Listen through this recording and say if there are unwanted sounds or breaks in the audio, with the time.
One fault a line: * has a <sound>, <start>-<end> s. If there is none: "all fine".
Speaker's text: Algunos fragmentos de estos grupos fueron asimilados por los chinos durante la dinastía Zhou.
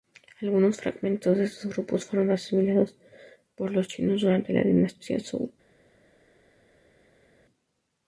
all fine